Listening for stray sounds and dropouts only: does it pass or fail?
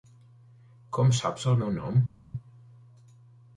pass